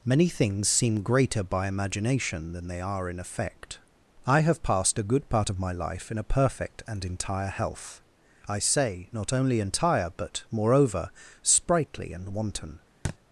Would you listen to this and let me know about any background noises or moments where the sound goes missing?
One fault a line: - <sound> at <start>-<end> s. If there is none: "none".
- thud at 13.0-13.2 s